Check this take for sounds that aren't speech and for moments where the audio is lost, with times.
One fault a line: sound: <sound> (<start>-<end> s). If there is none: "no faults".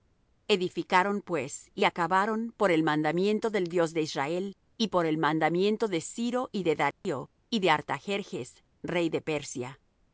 sound: dropout (6.9-7.0 s)